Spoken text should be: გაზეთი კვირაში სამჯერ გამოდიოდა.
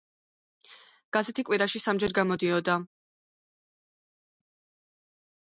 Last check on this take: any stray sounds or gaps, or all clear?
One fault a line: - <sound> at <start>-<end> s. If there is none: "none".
none